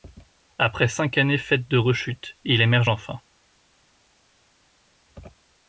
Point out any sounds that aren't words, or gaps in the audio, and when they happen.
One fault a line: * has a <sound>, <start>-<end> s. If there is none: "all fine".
all fine